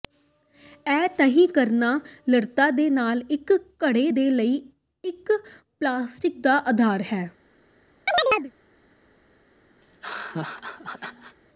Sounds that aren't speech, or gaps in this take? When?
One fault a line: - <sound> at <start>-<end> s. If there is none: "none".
- chirp at 8.1-8.5 s
- laugh at 9.8-11.4 s